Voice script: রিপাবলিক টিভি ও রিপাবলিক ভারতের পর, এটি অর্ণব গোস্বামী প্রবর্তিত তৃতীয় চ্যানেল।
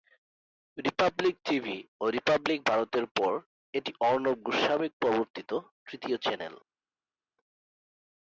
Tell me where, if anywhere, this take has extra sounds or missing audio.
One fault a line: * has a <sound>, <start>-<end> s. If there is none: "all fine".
all fine